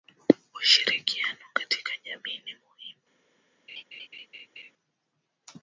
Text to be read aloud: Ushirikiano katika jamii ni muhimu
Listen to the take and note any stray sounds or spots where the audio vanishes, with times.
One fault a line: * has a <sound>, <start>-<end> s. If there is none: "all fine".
* has a laugh, 3.7-4.7 s